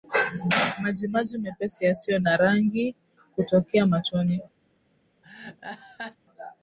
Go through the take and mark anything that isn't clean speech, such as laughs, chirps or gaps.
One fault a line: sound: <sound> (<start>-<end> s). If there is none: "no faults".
sound: laugh (5.2-6.2 s)